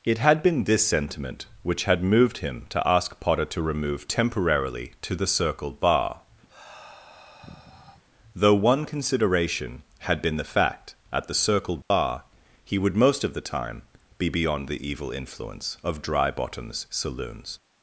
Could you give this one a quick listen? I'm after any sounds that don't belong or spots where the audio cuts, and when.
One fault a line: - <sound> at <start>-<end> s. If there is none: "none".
- sigh at 6.5-8.0 s
- dropout at 11.8-11.9 s